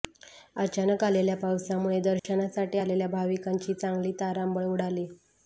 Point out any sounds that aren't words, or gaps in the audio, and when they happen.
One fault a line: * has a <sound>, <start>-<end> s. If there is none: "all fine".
* has a dropout, 2.2-2.2 s